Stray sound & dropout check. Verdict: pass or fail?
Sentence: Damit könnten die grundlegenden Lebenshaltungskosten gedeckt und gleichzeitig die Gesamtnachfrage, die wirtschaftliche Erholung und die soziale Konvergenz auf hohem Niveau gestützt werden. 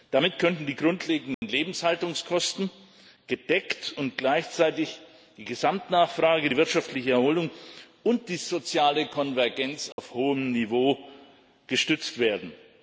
fail